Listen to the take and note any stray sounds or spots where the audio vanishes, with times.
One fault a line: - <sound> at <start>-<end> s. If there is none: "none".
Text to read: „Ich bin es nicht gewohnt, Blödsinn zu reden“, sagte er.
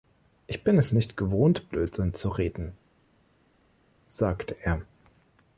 none